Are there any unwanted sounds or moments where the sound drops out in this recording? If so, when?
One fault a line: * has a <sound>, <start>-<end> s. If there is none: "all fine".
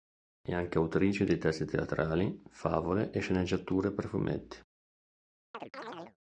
* has a chirp, 5.5-6.2 s